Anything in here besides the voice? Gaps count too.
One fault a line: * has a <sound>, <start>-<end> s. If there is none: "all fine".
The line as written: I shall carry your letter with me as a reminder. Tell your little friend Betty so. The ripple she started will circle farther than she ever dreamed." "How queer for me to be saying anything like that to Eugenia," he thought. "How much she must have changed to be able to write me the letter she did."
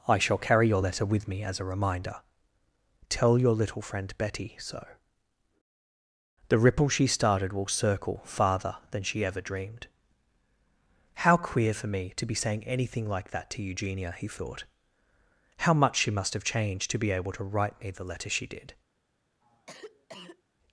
* has a cough, 19.4-20.4 s